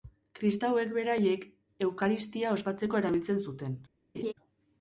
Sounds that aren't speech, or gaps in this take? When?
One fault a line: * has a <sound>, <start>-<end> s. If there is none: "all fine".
* has a laugh, 4.1-4.3 s